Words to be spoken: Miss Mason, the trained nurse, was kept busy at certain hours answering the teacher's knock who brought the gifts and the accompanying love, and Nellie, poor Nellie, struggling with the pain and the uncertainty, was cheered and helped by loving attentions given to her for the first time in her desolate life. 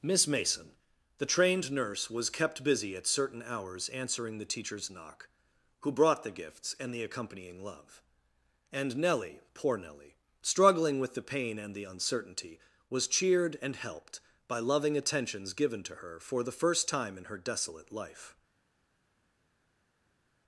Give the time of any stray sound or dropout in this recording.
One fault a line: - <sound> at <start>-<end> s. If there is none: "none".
none